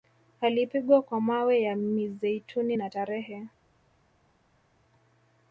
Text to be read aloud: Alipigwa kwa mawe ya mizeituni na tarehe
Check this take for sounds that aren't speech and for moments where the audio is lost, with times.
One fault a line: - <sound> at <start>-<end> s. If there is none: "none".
none